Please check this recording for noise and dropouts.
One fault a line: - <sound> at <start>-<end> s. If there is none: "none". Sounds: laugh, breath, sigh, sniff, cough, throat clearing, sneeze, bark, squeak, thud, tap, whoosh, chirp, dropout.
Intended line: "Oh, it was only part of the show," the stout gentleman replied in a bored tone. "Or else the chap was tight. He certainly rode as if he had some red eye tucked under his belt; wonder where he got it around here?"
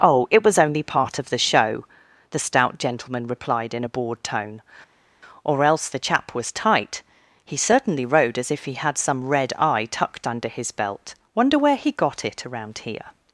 none